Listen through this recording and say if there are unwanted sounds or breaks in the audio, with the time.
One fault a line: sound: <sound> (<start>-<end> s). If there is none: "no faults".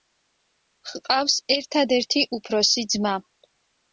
no faults